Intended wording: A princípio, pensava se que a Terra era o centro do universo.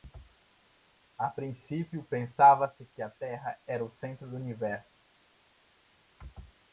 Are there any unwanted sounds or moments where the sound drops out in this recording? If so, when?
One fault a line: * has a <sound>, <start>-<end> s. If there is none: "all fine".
all fine